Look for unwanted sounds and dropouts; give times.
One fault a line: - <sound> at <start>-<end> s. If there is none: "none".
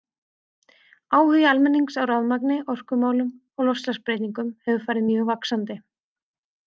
none